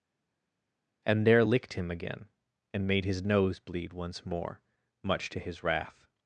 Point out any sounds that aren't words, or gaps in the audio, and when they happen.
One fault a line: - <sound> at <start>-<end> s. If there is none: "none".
none